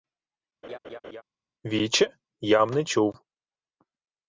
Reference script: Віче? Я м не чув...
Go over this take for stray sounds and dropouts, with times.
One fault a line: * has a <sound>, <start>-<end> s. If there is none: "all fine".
* has a laugh, 0.6-1.2 s